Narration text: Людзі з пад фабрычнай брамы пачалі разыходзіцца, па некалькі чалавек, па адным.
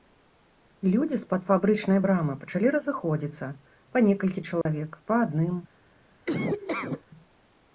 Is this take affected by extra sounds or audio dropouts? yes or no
yes